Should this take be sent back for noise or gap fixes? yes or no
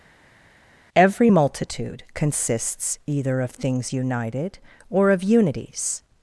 no